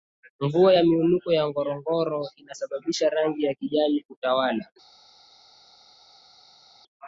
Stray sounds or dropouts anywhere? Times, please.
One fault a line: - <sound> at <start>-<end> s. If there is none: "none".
none